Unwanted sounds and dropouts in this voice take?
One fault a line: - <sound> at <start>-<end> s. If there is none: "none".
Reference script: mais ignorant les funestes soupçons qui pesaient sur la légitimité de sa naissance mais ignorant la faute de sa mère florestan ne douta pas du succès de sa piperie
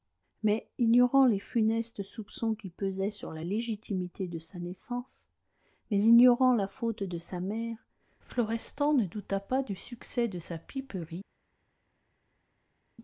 none